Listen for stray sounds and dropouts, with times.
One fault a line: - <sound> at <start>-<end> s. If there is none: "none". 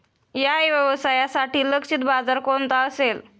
none